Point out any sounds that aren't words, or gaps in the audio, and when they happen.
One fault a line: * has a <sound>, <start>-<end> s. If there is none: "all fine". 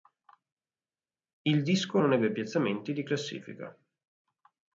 all fine